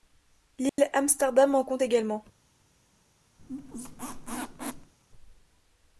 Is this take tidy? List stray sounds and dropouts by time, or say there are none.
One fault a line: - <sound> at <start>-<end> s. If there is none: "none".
- dropout at 0.7-0.8 s
- squeak at 3.4-4.9 s